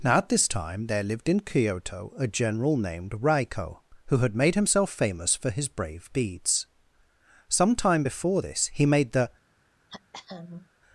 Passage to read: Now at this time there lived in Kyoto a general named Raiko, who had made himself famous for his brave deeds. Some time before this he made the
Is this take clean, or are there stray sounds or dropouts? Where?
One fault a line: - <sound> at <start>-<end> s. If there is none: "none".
- throat clearing at 9.9-10.7 s